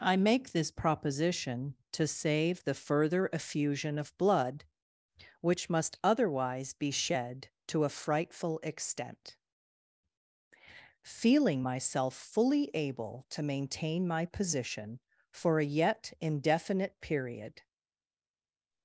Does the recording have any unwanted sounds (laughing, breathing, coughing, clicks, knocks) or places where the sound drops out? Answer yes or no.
no